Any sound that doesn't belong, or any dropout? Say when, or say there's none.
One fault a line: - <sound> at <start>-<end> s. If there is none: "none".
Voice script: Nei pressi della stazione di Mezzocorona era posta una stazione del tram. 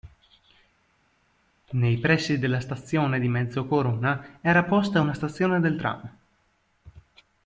none